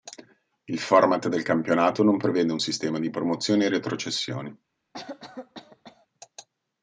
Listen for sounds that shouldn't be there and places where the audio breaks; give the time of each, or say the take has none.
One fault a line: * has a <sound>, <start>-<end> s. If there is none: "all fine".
* has a cough, 4.9-6.1 s